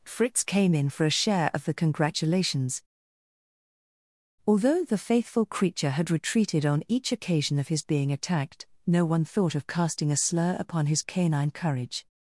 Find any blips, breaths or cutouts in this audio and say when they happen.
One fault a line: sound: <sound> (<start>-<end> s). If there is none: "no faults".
no faults